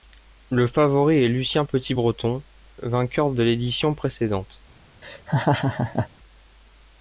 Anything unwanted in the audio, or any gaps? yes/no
yes